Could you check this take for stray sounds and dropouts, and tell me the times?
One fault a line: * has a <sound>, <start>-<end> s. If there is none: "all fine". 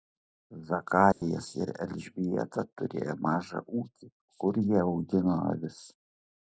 * has a dropout, 1.1-1.2 s